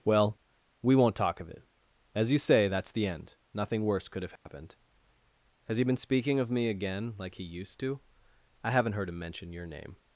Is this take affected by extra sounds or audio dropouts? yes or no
yes